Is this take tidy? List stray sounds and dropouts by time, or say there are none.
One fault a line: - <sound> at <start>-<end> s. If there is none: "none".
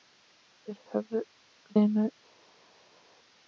none